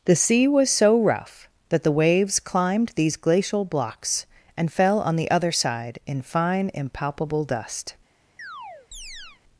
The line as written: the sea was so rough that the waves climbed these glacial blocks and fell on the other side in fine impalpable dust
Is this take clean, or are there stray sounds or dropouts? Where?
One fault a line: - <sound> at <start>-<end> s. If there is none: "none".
- chirp at 8.4-9.4 s